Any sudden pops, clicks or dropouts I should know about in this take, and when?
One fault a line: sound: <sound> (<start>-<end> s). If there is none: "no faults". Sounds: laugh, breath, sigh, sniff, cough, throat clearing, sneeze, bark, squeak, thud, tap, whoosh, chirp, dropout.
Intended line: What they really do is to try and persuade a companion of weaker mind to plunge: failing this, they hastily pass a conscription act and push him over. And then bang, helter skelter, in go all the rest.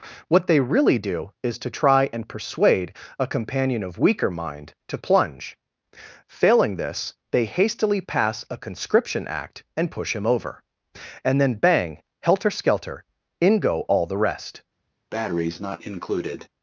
sound: breath (15.1-16.5 s)